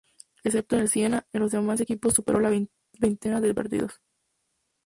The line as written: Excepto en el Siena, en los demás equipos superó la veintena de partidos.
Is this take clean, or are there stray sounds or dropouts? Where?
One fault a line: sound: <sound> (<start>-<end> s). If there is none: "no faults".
no faults